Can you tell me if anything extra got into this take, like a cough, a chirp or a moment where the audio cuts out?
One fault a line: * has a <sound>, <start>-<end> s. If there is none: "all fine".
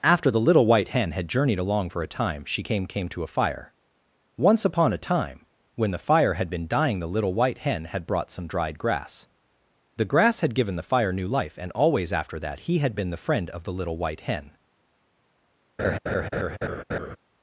* has a laugh, 15.8-17.2 s